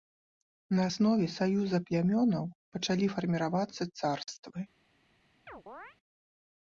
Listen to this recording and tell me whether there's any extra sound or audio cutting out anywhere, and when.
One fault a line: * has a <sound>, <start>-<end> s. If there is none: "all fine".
* has a chirp, 5.5-6.0 s